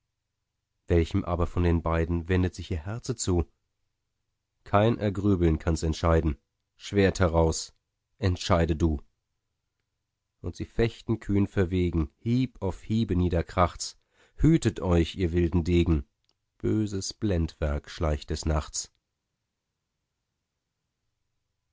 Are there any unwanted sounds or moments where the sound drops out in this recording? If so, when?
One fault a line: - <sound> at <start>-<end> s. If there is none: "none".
none